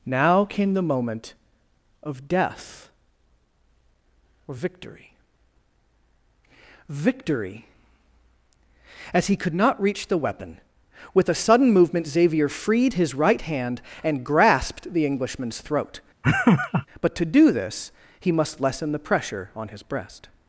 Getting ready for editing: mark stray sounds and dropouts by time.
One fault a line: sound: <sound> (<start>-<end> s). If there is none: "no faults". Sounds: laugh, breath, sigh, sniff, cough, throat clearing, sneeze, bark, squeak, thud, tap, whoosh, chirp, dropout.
sound: laugh (16.2-16.9 s)